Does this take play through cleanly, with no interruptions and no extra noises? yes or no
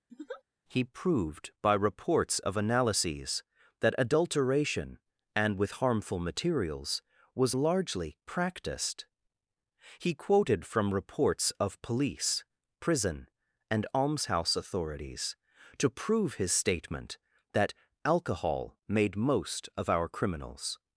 no